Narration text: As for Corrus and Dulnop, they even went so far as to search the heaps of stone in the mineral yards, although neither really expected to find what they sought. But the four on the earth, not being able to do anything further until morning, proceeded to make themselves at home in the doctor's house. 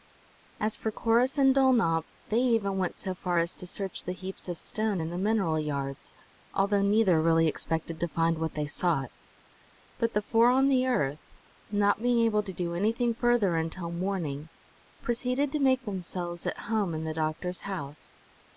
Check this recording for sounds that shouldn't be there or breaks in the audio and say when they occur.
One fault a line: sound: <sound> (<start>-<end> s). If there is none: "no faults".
no faults